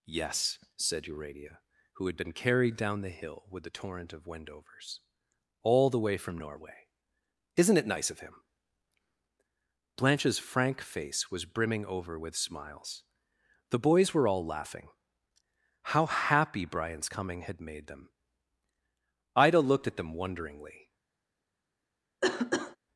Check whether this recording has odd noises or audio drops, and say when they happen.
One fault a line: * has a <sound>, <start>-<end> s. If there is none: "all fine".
* has a cough, 22.2-22.8 s